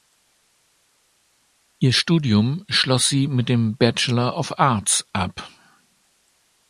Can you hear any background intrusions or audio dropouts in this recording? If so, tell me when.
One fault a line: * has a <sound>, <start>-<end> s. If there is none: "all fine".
all fine